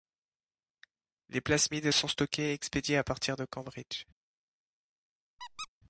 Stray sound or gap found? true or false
true